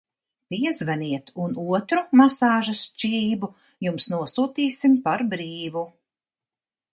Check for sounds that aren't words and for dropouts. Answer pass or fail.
pass